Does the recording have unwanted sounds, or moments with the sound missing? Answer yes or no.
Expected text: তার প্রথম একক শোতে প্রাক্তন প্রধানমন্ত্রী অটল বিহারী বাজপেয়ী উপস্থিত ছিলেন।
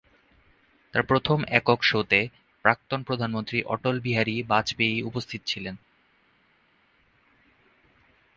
no